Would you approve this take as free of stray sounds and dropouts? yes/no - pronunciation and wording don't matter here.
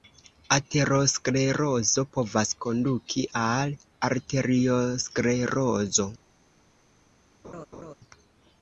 no